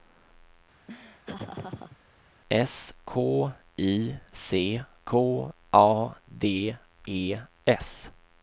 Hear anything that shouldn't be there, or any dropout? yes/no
yes